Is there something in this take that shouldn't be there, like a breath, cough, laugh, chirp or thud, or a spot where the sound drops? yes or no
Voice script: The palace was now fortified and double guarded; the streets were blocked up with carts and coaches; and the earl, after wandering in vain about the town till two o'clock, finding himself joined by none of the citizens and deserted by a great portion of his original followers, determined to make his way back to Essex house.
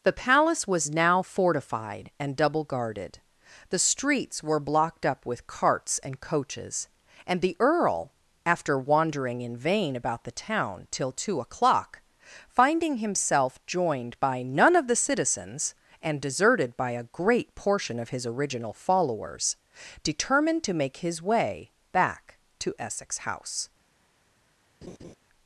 yes